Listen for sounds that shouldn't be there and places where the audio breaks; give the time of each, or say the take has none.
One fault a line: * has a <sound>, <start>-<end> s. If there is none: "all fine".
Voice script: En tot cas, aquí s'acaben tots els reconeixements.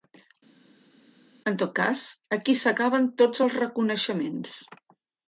all fine